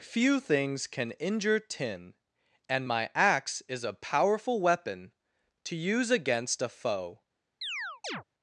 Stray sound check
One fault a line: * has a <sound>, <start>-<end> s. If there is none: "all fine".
* has a chirp, 7.6-8.2 s